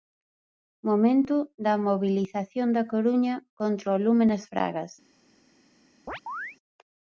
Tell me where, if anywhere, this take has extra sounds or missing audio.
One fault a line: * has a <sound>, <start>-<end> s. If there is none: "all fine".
* has a chirp, 6.1-6.6 s